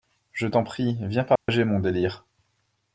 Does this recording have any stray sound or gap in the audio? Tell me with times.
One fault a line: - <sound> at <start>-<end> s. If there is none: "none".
- dropout at 1.4-1.5 s